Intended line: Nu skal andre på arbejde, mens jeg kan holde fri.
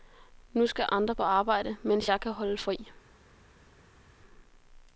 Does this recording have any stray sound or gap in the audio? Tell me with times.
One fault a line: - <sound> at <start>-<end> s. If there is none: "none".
none